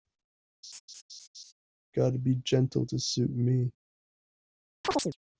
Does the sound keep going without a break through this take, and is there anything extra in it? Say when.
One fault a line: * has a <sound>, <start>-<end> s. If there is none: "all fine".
* has a laugh, 0.6-1.5 s
* has a chirp, 4.8-5.2 s